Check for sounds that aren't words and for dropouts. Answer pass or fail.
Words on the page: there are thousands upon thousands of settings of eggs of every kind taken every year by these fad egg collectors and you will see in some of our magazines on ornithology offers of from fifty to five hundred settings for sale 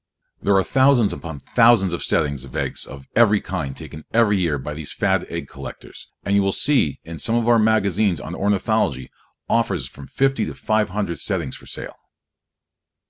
pass